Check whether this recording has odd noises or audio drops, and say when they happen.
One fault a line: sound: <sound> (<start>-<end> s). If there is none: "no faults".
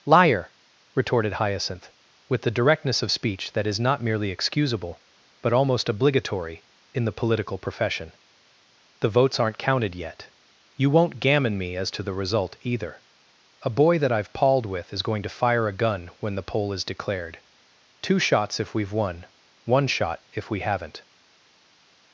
no faults